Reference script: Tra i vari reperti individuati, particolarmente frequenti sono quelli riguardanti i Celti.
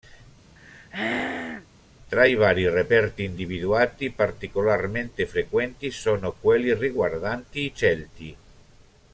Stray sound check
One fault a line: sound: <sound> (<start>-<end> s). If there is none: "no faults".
sound: throat clearing (0.6-1.7 s)